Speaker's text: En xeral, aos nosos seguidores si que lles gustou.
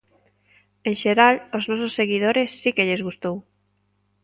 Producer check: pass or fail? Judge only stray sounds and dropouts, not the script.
pass